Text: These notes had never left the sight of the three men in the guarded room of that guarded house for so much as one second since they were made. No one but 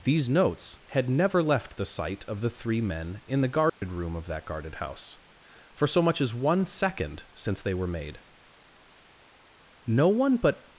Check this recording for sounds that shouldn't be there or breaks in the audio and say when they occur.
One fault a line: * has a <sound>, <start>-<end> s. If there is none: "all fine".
* has a dropout, 3.7-3.8 s